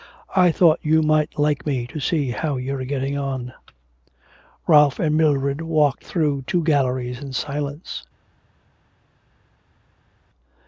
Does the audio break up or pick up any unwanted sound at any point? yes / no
no